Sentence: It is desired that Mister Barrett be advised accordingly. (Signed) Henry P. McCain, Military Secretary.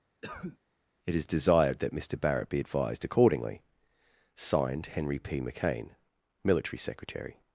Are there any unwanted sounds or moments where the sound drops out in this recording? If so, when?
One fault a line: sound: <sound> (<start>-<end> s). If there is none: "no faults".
sound: cough (0.2-0.6 s)